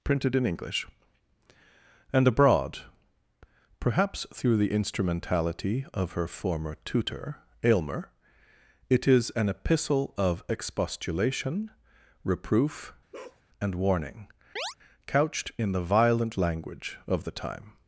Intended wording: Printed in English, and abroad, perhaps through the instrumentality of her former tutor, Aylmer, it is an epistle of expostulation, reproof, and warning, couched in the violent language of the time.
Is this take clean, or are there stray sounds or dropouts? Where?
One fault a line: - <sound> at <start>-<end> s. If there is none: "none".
- bark at 13.1-13.4 s
- chirp at 14.6-14.7 s